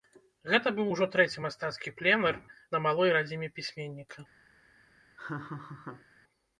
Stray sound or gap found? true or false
true